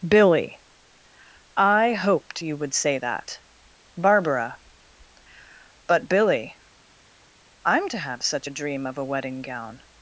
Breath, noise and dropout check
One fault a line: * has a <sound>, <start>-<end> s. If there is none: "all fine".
all fine